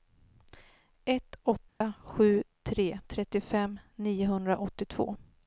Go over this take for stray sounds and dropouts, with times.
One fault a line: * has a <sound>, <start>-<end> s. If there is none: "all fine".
* has a dropout, 1.7-1.8 s